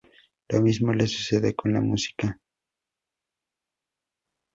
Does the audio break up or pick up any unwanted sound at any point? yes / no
no